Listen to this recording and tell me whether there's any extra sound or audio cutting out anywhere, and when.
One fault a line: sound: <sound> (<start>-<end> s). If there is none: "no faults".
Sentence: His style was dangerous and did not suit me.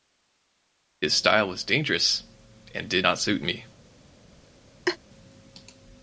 sound: laugh (4.8-5.0 s)